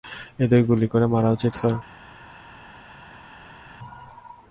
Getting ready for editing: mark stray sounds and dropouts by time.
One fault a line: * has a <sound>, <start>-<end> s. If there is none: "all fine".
all fine